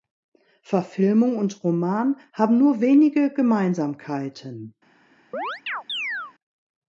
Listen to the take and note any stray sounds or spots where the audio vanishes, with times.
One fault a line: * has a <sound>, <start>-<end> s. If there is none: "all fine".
* has a chirp, 5.3-6.3 s